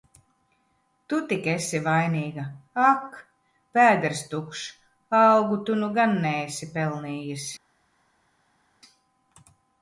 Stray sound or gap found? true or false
false